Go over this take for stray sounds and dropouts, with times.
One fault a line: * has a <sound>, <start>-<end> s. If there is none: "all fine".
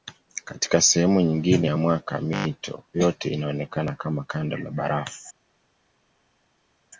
all fine